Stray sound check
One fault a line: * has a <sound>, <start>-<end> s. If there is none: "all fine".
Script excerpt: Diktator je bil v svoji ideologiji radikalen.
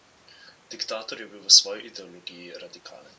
all fine